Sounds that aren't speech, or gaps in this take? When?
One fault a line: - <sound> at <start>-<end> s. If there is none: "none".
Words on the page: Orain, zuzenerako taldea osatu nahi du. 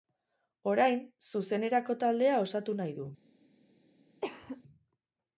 - cough at 4.2-4.6 s